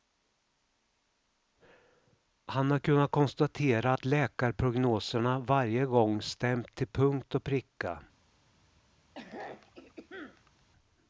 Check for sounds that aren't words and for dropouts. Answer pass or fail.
fail